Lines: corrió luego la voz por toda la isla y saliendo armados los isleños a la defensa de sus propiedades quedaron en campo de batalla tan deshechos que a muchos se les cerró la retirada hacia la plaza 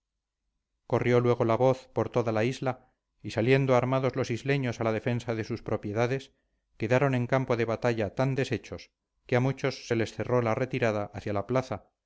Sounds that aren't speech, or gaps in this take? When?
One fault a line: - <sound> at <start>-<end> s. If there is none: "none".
none